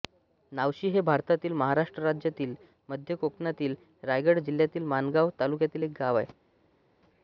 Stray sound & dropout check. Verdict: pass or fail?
pass